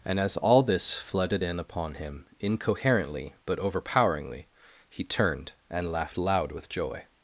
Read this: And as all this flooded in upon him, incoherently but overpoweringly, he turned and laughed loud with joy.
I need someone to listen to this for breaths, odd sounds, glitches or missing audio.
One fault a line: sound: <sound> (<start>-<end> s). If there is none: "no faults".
no faults